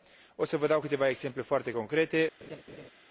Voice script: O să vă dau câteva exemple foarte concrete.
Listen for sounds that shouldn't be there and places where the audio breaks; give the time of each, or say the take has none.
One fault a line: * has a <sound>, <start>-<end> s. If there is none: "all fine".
* has a laugh, 2.4-2.9 s